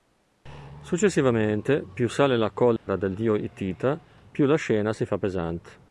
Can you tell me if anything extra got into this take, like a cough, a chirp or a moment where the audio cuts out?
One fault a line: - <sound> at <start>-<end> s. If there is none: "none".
- dropout at 2.8-2.9 s